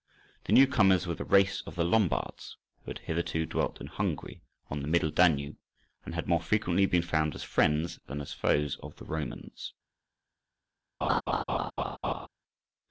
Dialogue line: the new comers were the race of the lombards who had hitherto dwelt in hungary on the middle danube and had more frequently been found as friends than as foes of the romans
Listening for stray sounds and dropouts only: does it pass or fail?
fail